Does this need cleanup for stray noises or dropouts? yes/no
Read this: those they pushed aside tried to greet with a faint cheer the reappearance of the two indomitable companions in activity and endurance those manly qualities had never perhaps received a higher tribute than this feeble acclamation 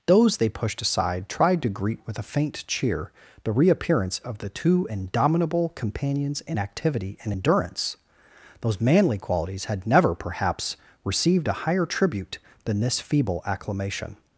no